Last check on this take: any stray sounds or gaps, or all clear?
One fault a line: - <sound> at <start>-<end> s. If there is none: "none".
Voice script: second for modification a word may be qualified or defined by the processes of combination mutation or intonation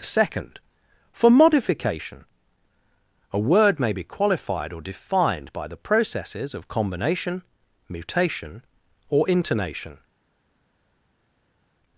none